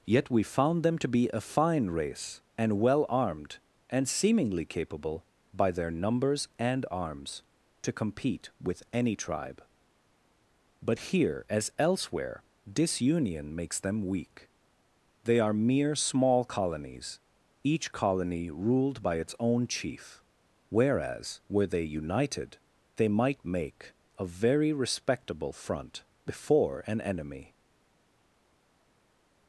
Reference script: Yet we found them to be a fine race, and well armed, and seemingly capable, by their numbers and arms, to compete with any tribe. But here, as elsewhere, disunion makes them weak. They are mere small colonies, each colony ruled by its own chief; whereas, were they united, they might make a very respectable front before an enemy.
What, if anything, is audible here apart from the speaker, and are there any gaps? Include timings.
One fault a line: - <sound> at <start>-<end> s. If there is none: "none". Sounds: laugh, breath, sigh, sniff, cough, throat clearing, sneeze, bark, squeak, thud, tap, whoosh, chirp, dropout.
none